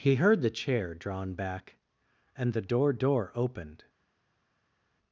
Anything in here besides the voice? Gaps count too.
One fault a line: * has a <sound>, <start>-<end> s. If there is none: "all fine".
all fine